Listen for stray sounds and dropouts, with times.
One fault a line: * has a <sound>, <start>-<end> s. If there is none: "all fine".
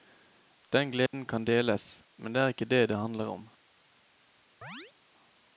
* has a dropout, 1.1-1.1 s
* has a chirp, 4.6-4.9 s